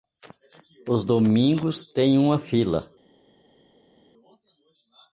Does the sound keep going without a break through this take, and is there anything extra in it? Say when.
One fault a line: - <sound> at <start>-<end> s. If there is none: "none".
none